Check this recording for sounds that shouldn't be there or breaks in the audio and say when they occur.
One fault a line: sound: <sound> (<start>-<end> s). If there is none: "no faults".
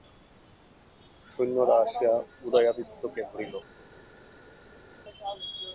no faults